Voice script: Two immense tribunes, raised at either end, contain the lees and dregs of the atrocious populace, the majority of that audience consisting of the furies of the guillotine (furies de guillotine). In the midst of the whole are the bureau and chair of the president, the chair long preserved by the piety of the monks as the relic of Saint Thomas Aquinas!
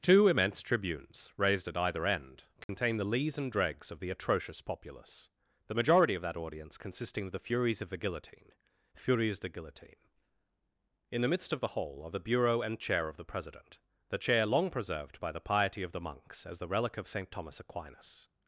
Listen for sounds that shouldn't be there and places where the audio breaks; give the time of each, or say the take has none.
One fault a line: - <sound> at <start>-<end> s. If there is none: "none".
- dropout at 2.6-2.7 s